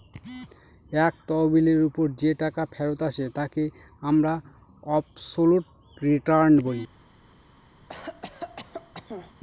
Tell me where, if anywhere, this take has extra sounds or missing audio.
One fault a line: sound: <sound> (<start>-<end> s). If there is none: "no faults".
sound: cough (7.9-9.3 s)